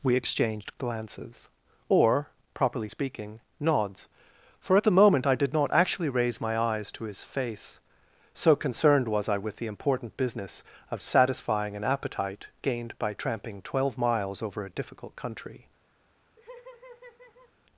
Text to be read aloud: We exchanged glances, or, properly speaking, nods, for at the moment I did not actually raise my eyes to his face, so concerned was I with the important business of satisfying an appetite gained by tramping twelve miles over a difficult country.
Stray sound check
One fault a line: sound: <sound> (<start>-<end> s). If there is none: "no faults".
sound: laugh (16.4-17.5 s)